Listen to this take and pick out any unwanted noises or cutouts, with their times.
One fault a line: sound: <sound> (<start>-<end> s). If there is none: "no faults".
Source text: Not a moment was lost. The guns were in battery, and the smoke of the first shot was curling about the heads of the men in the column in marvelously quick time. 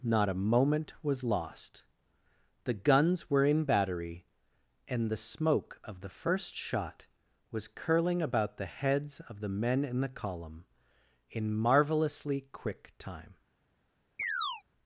sound: chirp (14.2-14.6 s)